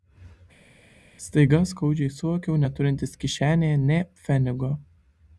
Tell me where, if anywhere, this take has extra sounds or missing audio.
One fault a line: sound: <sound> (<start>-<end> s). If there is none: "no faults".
no faults